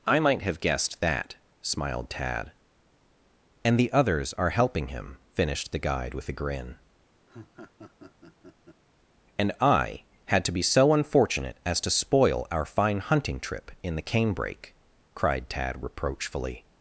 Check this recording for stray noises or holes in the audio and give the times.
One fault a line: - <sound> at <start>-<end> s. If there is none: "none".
- laugh at 7.3-8.8 s